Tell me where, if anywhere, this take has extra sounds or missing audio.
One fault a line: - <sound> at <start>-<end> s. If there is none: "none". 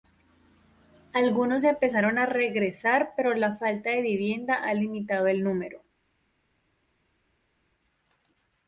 none